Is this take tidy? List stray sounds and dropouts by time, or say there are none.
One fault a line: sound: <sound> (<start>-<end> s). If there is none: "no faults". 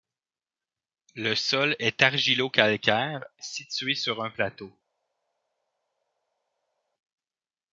no faults